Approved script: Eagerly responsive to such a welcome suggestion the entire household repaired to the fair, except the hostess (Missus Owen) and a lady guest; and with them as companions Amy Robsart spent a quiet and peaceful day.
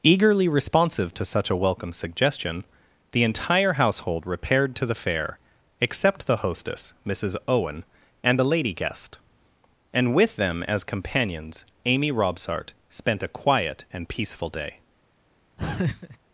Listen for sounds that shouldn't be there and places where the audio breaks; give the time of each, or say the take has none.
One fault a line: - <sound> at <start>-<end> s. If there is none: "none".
- laugh at 15.6-16.2 s